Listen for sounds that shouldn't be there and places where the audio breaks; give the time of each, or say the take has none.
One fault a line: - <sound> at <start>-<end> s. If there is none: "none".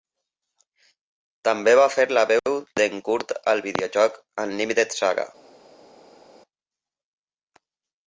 none